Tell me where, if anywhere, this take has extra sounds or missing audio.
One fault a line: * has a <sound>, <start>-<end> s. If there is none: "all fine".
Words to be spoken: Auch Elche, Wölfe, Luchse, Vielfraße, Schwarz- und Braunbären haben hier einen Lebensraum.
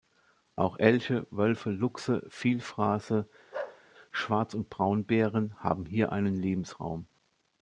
* has a bark, 3.5-3.8 s